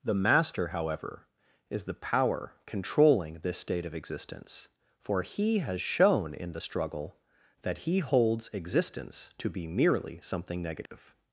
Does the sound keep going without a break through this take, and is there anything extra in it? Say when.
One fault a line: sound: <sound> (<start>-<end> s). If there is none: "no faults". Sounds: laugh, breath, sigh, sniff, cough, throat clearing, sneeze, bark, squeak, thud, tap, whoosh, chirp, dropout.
sound: dropout (10.9-10.9 s)